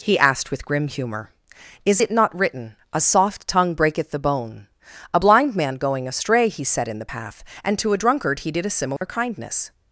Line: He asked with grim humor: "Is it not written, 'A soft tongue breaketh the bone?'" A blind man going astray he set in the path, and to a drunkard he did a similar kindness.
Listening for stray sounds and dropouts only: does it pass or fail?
fail